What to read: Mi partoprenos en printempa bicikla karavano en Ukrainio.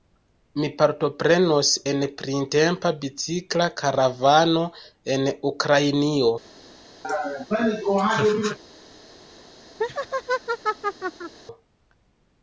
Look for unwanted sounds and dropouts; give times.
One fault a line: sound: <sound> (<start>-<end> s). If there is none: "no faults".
sound: laugh (7.0-8.6 s)
sound: laugh (9.8-11.3 s)